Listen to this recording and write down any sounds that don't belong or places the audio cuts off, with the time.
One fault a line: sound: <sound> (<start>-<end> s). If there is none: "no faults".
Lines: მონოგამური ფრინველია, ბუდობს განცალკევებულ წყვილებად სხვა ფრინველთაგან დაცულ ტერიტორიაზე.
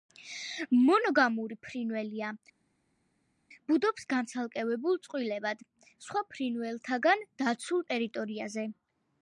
no faults